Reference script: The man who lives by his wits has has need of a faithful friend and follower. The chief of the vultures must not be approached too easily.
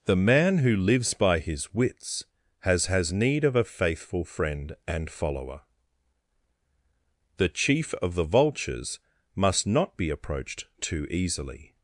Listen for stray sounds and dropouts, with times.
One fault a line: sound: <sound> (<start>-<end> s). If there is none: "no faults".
no faults